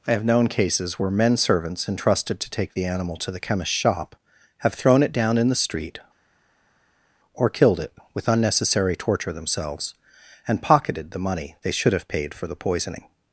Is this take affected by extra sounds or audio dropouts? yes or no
no